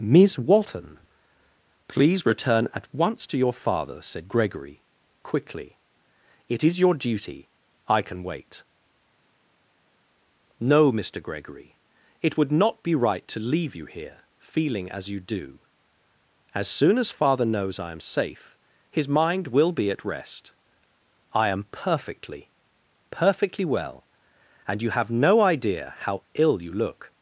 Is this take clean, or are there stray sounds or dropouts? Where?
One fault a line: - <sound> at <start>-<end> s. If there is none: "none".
none